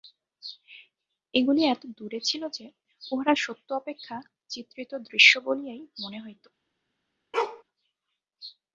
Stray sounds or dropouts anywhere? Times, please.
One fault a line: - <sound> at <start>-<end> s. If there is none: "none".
- bark at 7.3-7.6 s